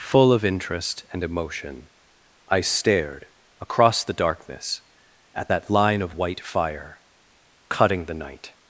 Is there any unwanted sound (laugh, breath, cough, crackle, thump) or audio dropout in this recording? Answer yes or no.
no